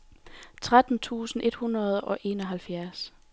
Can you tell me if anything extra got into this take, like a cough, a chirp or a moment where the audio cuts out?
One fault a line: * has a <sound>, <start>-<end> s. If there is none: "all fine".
all fine